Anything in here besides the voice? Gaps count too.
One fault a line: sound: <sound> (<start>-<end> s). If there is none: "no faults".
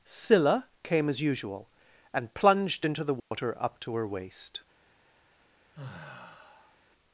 sound: dropout (3.2-3.3 s)
sound: sigh (5.7-6.8 s)